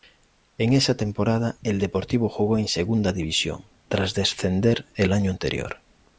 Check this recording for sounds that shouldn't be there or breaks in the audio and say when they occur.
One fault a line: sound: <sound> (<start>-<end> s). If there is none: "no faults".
no faults